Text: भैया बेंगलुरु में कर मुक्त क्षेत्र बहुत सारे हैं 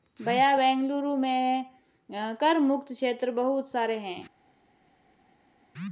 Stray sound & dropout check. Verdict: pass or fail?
pass